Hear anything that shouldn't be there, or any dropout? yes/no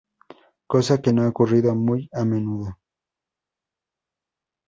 no